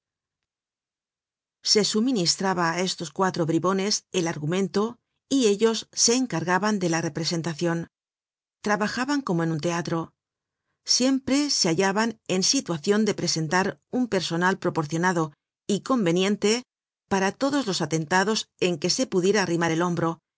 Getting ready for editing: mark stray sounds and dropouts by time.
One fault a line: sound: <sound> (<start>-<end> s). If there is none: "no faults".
no faults